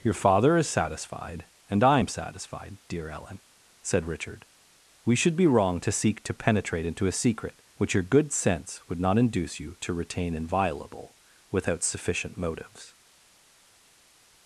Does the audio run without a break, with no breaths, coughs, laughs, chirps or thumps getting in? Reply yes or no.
yes